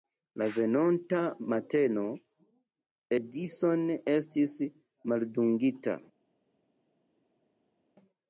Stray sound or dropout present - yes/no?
no